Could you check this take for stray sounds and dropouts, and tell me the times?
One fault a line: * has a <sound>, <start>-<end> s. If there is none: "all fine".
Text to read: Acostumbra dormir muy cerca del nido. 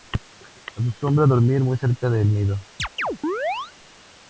* has a chirp, 2.8-3.7 s